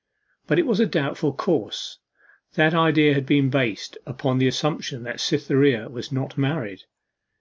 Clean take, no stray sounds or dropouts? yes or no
yes